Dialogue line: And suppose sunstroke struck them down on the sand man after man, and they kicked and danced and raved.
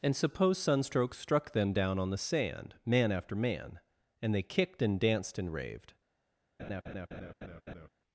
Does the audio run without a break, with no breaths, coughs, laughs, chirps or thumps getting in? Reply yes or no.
no